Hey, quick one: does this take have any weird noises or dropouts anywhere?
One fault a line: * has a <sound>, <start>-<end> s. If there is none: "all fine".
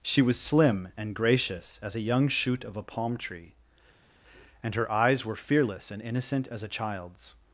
all fine